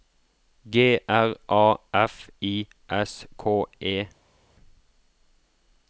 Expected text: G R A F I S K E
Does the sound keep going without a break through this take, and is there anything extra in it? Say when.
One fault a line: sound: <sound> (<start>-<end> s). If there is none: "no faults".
no faults